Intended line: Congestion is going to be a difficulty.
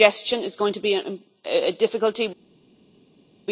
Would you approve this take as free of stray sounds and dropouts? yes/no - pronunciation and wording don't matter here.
yes